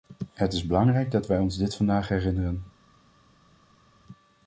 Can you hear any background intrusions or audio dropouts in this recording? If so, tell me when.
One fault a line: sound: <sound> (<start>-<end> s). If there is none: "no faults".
no faults